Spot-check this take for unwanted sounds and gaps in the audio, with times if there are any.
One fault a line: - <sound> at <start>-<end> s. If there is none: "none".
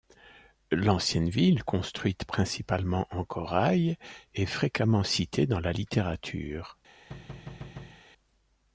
- thud at 7.1-8.0 s